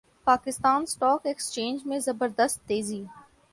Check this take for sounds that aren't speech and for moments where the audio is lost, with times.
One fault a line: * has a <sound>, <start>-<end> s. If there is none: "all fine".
all fine